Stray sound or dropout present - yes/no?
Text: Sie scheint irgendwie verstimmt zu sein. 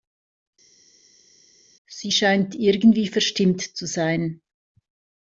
no